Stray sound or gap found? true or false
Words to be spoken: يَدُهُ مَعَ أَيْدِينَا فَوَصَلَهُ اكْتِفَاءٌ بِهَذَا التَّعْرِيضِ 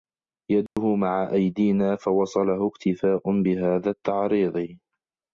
true